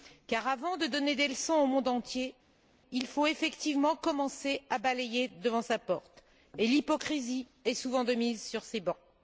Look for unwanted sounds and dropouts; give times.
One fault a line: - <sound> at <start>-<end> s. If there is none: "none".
none